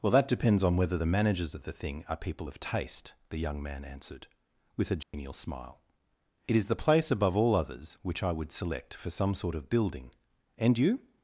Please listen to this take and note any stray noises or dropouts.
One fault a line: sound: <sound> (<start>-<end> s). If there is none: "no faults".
sound: dropout (5.0-5.1 s)